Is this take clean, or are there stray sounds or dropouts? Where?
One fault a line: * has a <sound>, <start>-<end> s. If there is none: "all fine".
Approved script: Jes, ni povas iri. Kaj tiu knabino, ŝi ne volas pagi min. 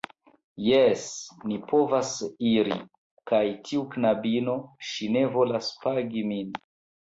all fine